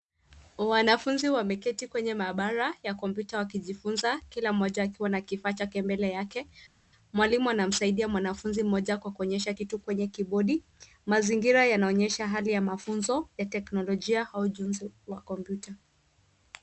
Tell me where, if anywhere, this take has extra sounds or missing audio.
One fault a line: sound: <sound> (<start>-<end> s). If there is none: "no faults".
no faults